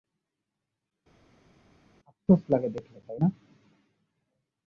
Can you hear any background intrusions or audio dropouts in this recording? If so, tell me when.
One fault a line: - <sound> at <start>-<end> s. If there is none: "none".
none